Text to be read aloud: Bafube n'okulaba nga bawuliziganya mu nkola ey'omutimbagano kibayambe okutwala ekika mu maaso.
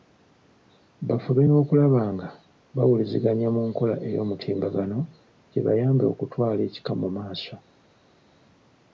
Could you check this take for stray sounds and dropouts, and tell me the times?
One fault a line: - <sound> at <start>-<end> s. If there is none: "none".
none